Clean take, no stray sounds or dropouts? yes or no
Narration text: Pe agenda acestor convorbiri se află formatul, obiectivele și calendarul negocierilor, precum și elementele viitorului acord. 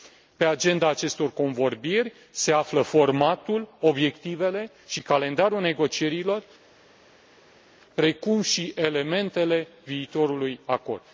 yes